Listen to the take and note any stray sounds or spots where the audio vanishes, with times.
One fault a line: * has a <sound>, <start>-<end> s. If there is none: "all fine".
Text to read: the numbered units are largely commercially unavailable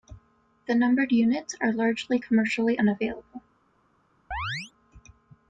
* has a chirp, 4.3-4.7 s